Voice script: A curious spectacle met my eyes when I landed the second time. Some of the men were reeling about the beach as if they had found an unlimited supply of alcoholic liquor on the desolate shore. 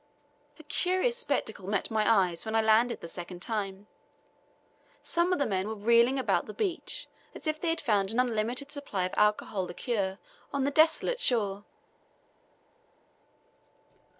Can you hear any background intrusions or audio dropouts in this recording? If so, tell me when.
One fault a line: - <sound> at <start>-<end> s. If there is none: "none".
none